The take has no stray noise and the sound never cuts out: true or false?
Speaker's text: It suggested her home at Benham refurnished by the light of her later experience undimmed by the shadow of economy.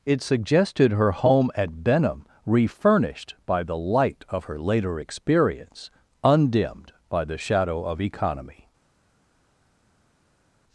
true